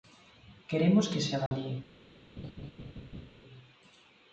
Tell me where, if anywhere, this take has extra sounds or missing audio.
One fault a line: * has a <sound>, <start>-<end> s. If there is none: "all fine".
* has a dropout, 1.5-1.5 s
* has a laugh, 2.4-3.3 s